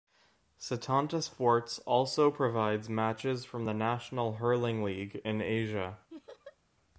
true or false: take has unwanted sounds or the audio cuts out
true